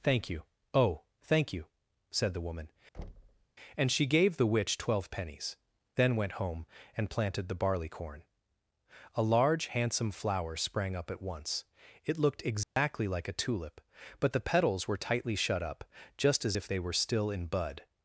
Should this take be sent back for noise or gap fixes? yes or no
yes